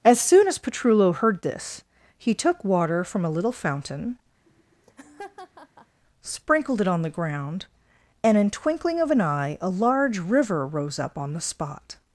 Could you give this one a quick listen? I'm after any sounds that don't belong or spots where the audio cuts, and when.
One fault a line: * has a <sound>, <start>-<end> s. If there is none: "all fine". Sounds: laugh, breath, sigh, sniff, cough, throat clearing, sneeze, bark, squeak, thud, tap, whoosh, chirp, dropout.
* has a laugh, 4.5-6.0 s